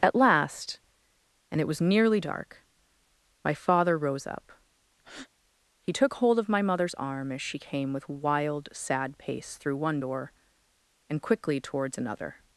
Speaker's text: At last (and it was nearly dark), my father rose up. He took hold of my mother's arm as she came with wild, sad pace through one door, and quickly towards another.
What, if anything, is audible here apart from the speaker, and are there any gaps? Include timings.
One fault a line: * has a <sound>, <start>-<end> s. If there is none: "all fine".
* has a breath, 5.0-5.3 s